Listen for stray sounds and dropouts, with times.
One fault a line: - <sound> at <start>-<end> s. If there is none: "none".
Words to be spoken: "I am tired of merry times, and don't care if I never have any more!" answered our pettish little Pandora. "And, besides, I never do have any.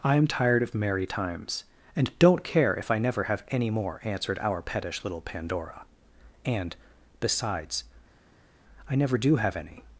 none